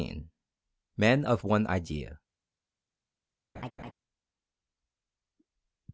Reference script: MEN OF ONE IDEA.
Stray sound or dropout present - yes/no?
yes